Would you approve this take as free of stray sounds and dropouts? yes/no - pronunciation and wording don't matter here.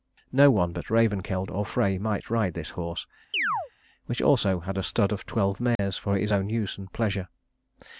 no